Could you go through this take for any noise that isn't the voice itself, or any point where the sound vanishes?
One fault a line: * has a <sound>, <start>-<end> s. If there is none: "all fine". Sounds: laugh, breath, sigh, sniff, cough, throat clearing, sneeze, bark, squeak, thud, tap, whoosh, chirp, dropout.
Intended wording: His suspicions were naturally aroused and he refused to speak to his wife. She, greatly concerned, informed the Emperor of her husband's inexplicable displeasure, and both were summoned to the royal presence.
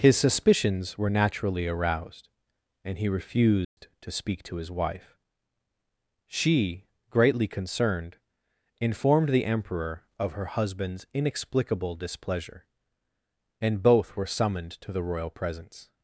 * has a dropout, 3.6-3.8 s